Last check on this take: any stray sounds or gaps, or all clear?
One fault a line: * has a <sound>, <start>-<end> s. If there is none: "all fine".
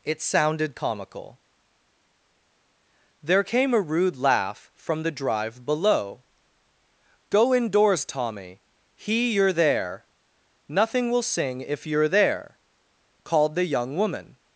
all fine